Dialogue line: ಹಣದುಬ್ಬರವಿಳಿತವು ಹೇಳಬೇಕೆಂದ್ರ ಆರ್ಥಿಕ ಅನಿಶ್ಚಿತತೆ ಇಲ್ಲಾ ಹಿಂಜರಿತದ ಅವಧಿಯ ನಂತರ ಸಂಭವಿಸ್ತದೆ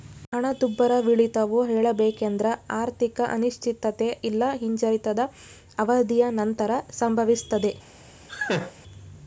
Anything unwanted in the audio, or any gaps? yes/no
yes